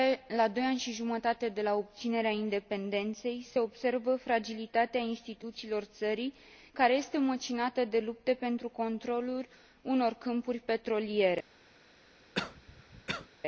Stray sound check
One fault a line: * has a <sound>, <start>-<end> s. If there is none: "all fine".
* has a cough, 12.3-13.3 s